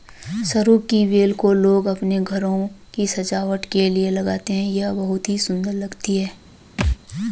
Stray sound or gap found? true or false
true